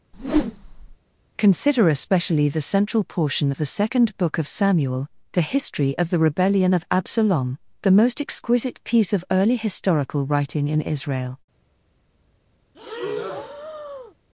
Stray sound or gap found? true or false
true